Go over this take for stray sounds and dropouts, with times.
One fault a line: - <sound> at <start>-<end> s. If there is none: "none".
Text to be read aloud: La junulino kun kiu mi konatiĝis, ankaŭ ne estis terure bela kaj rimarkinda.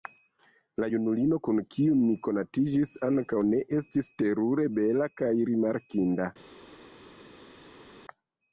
none